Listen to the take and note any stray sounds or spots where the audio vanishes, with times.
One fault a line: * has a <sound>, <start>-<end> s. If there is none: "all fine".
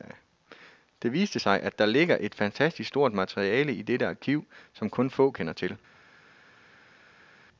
all fine